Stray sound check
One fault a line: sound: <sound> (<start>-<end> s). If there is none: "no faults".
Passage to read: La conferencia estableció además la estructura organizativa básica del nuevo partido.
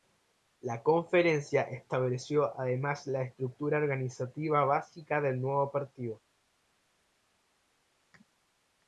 no faults